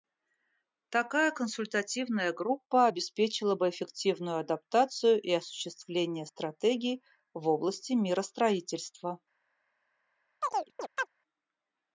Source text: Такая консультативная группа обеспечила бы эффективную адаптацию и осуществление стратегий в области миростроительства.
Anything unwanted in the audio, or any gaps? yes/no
yes